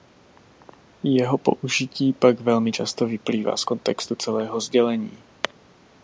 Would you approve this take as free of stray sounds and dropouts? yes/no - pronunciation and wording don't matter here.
yes